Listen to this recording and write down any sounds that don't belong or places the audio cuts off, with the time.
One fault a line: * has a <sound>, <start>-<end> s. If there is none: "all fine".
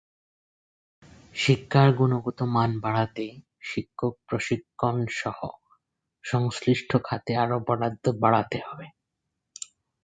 all fine